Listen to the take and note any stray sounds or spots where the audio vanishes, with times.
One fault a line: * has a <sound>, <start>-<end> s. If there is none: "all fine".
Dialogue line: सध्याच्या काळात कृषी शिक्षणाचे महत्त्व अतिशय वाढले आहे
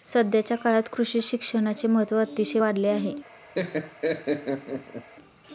* has a laugh, 3.5-5.1 s